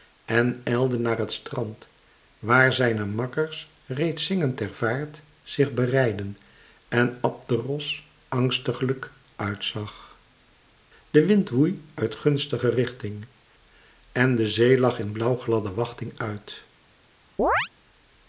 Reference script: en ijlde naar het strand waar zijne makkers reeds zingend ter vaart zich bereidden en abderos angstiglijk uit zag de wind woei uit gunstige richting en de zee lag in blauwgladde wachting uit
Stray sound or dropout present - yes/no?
yes